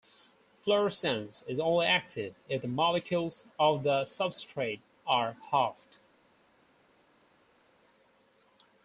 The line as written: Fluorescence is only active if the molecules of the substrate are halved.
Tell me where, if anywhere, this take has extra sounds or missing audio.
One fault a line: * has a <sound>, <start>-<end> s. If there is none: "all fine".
all fine